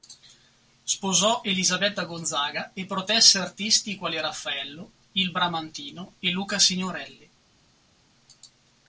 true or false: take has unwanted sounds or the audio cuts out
false